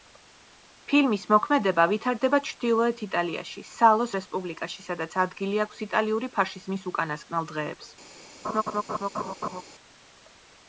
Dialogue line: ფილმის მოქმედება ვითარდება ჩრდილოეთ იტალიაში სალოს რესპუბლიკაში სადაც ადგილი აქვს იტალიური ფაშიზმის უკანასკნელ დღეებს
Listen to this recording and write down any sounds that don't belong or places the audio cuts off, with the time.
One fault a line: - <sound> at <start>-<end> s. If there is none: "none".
- laugh at 8.4-9.6 s